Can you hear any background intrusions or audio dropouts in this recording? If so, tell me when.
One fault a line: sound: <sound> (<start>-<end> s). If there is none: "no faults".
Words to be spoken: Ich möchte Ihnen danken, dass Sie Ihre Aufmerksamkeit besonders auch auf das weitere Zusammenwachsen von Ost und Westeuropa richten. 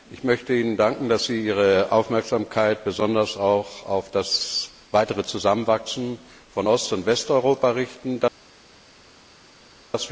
no faults